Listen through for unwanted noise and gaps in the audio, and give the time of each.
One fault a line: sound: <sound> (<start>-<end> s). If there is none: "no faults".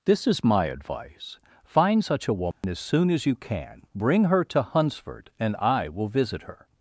sound: dropout (2.5-2.6 s)